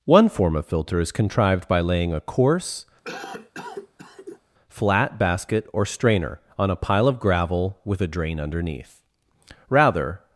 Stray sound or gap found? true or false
true